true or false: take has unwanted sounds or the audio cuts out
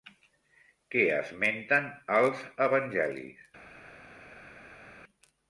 false